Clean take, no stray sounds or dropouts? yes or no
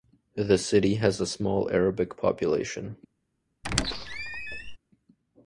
no